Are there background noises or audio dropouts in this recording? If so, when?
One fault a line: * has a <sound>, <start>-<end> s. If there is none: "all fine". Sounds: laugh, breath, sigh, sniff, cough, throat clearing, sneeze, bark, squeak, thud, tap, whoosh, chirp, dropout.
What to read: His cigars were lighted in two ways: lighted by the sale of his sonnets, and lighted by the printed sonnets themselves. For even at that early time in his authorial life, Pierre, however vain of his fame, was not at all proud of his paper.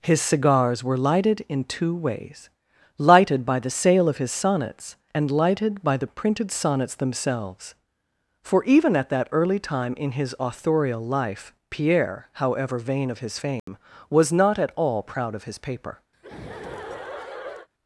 * has a dropout, 13.6-13.7 s
* has a laugh, 16.1-17.7 s